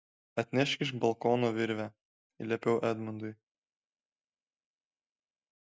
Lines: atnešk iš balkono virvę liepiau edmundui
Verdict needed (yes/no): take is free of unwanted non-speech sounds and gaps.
yes